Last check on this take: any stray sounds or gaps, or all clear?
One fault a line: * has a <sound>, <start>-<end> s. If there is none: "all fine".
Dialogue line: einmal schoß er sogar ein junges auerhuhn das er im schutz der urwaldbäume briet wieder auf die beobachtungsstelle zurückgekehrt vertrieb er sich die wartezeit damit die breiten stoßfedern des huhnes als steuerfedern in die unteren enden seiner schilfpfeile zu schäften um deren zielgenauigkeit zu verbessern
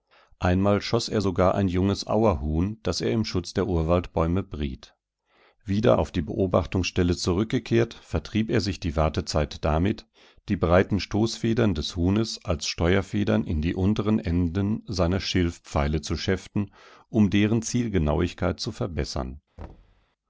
* has a thud, 19.6-20.1 s